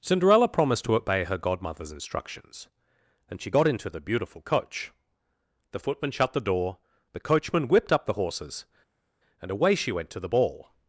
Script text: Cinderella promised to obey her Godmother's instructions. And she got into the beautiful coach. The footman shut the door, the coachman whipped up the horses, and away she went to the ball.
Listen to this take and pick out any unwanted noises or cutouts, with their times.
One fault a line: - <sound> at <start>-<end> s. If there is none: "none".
none